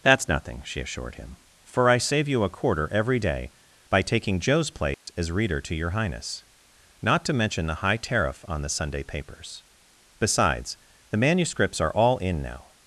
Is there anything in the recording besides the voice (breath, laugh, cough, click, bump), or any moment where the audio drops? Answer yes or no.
yes